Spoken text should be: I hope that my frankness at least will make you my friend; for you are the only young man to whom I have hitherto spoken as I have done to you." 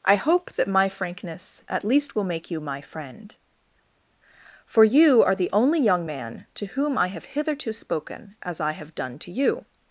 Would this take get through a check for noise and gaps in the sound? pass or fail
pass